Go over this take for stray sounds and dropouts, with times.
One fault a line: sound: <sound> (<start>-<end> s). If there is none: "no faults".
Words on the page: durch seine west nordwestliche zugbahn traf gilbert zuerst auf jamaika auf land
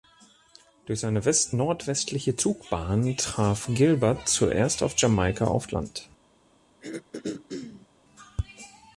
sound: throat clearing (6.8-7.9 s)